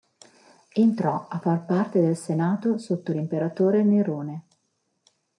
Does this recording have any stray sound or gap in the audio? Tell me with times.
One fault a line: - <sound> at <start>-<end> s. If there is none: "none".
none